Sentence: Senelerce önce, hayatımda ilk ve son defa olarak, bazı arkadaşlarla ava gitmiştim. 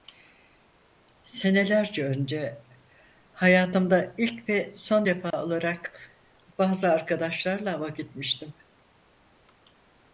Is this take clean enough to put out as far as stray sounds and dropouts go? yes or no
no